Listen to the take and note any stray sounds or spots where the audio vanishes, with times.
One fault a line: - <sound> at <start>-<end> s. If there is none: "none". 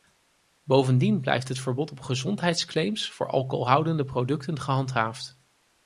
none